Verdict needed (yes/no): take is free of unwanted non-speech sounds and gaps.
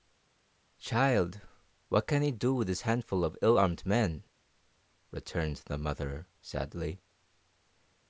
yes